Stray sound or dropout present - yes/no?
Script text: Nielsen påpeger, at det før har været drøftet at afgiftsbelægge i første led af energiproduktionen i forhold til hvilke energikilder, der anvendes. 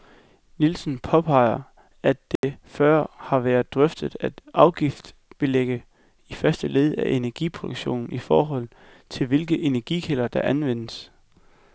yes